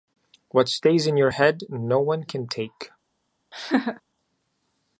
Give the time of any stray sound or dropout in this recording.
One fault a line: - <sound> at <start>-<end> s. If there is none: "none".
- laugh at 3.5-4.0 s